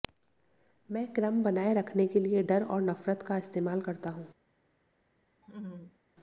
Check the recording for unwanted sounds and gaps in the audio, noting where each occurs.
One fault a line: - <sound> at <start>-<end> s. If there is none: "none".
- laugh at 5.4-6.0 s